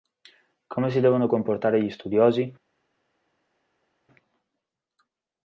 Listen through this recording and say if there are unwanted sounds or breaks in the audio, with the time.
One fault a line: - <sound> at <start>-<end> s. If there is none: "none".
none